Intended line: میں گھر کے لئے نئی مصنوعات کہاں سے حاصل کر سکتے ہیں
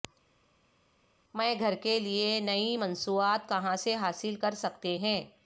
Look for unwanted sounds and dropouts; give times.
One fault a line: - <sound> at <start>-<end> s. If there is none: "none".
none